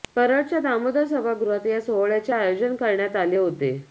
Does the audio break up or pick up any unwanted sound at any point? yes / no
no